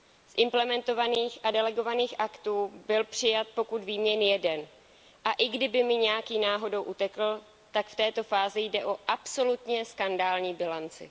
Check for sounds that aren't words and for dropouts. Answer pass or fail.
pass